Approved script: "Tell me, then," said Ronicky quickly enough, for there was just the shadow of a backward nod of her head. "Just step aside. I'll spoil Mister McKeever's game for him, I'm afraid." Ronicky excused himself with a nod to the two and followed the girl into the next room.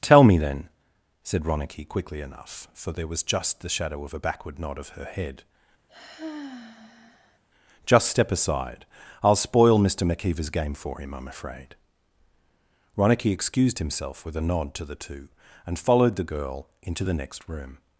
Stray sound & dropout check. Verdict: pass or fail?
fail